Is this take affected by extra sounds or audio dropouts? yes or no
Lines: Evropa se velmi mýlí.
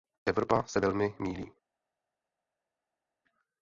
no